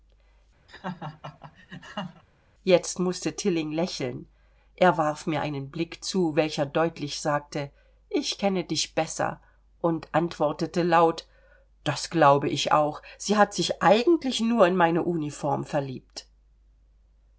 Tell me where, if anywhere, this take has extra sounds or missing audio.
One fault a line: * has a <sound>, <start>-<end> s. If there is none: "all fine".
* has a laugh, 0.7-2.2 s